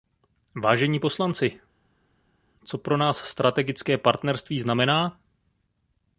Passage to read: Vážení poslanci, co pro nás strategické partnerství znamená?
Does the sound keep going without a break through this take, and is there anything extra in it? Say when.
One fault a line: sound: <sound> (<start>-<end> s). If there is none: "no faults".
no faults